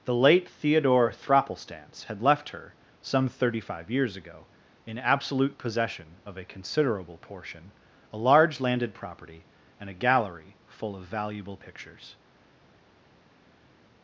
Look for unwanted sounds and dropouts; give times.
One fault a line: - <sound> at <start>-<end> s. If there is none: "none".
none